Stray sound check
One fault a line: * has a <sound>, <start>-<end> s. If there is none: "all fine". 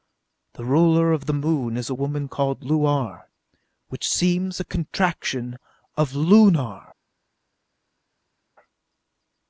all fine